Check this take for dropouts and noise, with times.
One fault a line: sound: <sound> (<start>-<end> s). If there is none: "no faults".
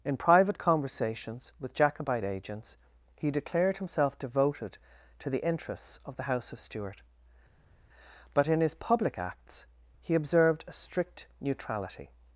no faults